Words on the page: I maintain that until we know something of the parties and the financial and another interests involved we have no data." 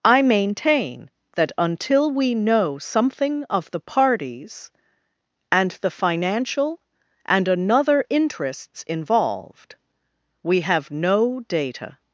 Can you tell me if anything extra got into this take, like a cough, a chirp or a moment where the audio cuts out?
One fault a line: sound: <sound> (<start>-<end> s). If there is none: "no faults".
no faults